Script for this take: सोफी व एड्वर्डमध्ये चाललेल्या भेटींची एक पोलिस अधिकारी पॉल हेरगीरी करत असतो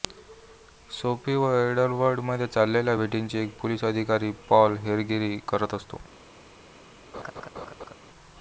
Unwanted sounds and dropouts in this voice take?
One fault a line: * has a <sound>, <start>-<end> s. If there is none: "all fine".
* has a laugh, 7.1-7.9 s